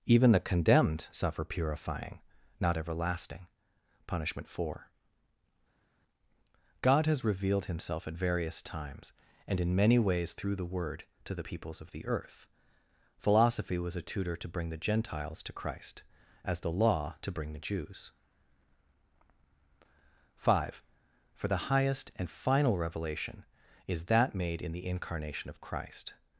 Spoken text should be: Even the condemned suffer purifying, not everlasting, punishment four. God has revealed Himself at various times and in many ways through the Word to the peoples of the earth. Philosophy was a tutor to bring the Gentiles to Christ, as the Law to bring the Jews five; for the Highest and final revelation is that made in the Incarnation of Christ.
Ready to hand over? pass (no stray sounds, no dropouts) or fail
pass